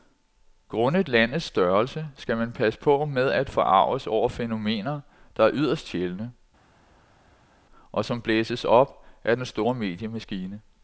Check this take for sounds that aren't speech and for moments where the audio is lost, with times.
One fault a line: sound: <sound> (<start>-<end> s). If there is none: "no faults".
no faults